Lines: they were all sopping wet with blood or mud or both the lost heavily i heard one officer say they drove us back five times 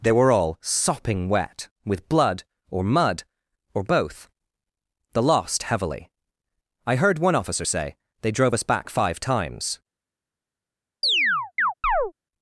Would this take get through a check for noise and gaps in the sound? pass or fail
fail